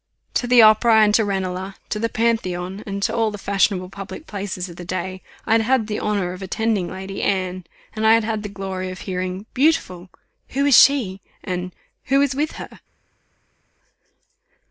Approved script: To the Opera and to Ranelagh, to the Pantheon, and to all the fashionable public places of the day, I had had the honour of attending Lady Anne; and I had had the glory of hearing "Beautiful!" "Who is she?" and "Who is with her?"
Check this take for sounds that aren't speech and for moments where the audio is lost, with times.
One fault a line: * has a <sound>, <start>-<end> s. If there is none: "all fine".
all fine